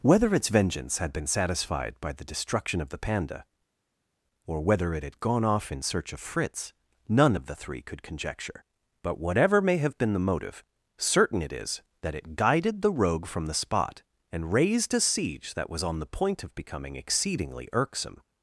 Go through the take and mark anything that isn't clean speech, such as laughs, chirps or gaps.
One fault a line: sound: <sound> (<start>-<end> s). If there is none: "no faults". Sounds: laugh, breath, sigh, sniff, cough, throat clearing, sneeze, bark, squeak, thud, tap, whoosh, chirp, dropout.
no faults